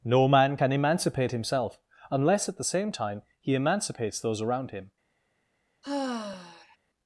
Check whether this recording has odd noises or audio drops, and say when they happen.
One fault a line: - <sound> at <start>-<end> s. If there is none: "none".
- sigh at 5.8-6.8 s